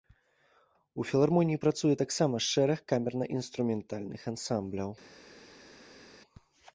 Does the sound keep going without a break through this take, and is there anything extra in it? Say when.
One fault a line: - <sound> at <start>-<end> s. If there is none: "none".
none